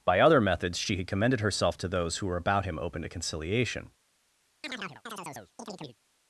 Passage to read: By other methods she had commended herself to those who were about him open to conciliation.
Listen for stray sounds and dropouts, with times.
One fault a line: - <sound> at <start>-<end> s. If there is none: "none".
- chirp at 4.6-6.0 s